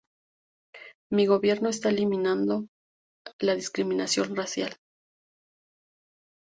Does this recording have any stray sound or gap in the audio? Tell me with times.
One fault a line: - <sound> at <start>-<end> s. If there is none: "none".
none